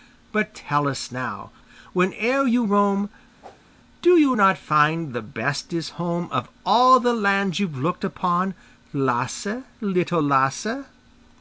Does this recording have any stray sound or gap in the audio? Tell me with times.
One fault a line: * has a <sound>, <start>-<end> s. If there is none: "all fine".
* has a whoosh, 3.4-3.7 s